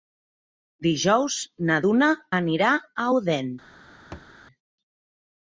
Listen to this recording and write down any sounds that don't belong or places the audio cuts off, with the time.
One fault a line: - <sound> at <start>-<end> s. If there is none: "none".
- thud at 4.1-4.3 s